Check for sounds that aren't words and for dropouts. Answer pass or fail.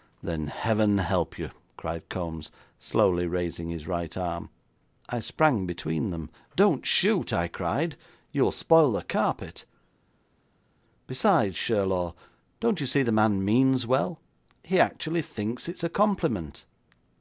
pass